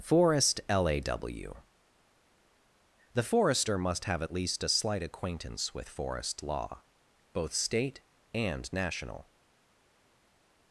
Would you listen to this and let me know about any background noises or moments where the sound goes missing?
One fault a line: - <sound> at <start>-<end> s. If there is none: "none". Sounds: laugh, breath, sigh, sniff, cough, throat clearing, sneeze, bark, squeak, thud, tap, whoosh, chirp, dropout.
none